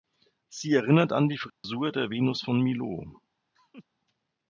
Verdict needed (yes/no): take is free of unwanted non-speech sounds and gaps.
no